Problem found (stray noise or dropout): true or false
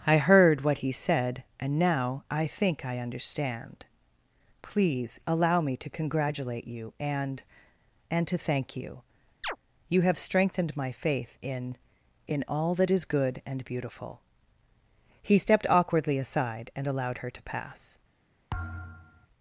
true